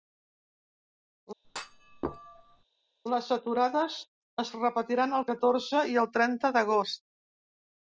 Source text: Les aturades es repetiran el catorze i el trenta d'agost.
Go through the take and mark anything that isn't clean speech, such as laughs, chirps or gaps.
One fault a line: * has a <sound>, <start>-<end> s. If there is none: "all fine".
* has a thud, 1.4-2.6 s